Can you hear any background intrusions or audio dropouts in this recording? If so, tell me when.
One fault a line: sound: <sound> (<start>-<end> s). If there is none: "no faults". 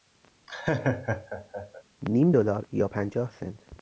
sound: laugh (0.5-1.8 s)